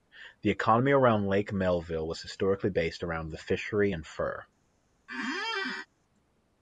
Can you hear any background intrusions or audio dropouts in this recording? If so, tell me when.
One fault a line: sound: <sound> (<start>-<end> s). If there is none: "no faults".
sound: squeak (5.1-5.9 s)